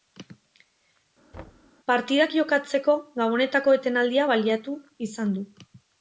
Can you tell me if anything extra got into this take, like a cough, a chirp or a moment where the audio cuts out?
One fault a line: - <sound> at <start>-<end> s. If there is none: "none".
- thud at 1.3-1.7 s